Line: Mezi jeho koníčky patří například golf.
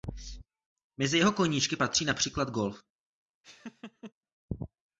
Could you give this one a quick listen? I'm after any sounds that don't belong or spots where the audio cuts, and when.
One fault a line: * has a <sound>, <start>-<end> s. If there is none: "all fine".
* has a laugh, 3.4-4.1 s